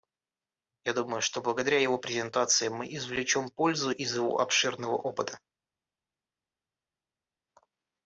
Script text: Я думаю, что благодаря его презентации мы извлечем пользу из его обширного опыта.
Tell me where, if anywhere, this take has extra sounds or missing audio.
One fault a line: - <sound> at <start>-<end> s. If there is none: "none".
none